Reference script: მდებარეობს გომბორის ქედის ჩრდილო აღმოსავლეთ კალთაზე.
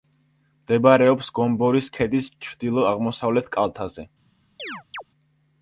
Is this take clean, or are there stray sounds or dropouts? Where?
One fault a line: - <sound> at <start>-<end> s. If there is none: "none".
- chirp at 4.6-5.0 s